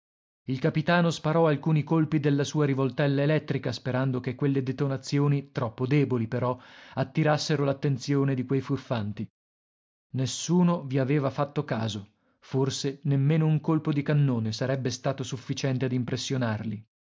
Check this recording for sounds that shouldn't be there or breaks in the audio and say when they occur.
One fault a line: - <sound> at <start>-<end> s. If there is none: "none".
none